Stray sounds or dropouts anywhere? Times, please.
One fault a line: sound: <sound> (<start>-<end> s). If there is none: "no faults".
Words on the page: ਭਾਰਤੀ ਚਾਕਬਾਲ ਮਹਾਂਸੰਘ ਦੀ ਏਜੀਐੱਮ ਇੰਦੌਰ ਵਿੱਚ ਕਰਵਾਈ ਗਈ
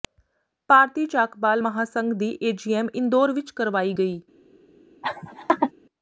sound: laugh (5.0-5.7 s)